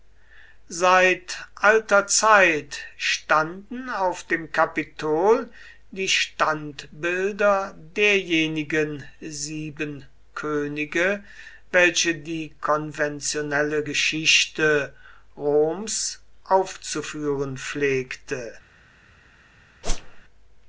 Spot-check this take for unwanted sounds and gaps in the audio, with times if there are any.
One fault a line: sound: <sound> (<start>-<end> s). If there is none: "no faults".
sound: whoosh (19.8-20.2 s)